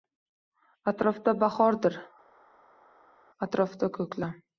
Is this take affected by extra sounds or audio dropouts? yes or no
no